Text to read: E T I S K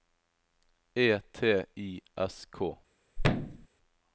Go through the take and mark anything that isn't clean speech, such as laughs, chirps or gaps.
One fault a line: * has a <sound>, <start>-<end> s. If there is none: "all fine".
* has a thud, 3.2-3.7 s